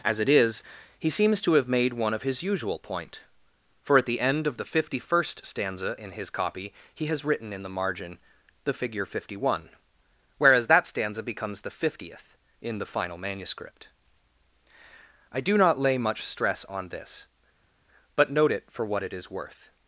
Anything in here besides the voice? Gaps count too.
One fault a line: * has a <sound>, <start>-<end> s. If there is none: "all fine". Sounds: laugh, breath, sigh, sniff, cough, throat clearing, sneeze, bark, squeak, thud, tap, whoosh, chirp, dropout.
all fine